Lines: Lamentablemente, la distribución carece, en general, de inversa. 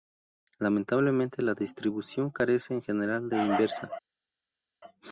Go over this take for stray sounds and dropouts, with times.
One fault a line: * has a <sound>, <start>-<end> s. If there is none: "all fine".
all fine